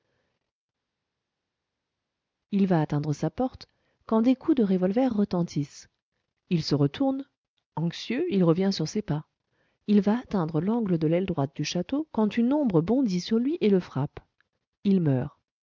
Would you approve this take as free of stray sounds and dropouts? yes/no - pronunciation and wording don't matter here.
yes